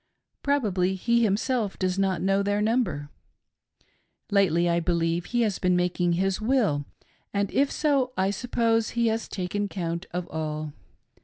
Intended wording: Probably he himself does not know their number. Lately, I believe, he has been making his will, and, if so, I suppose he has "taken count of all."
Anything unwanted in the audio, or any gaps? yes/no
no